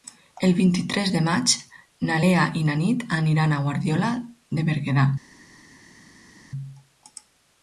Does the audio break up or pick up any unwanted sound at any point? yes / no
no